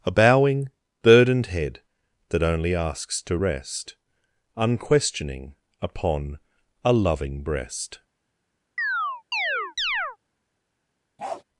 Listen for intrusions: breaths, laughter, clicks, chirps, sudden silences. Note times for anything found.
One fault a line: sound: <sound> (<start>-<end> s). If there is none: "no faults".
sound: chirp (8.8-10.2 s)
sound: bark (11.2-11.4 s)